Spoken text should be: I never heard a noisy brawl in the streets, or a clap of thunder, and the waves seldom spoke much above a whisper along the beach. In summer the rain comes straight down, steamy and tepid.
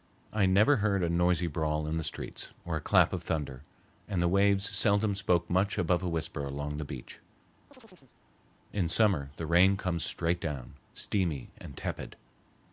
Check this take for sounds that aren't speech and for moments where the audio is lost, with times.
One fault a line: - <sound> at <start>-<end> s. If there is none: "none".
- chirp at 7.7-8.2 s